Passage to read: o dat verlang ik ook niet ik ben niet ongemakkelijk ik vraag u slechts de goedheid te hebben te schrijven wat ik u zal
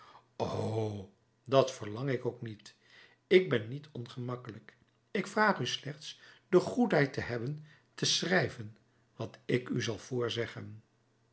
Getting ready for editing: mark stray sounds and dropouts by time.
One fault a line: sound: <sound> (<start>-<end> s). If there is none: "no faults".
no faults